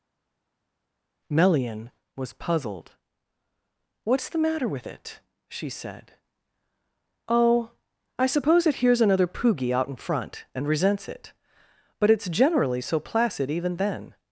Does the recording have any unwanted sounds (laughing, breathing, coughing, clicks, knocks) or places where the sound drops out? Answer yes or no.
no